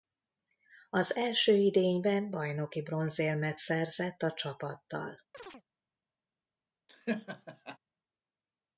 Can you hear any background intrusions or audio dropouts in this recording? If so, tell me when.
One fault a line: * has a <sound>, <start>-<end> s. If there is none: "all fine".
* has a chirp, 5.3-5.6 s
* has a laugh, 6.9-7.8 s